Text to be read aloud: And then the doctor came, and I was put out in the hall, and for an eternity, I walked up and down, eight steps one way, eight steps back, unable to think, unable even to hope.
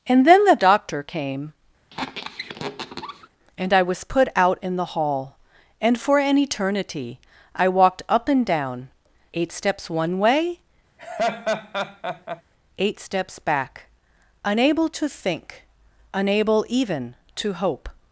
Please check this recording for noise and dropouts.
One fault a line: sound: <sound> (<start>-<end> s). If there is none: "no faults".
sound: squeak (1.9-3.3 s)
sound: laugh (11.0-12.4 s)